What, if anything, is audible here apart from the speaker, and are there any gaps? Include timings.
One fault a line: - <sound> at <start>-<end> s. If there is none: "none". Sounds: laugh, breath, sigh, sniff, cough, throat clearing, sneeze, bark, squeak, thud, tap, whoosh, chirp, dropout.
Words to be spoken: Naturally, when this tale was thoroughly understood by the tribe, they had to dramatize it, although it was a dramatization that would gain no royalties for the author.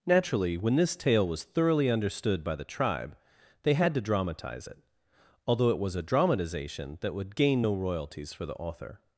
none